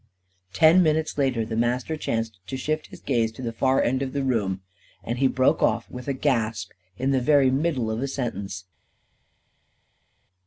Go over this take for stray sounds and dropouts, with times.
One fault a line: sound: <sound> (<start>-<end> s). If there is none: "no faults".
no faults